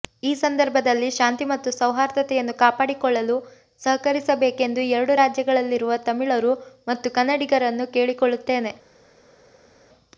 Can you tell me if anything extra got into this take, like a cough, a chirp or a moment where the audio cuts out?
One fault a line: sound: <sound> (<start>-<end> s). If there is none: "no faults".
no faults